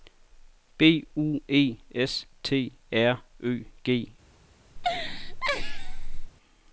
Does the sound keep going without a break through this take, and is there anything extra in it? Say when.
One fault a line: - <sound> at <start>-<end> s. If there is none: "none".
- laugh at 4.8-6.3 s